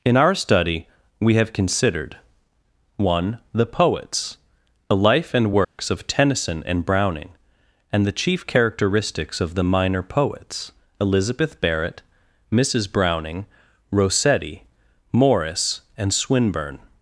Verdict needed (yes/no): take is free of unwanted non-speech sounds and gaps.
no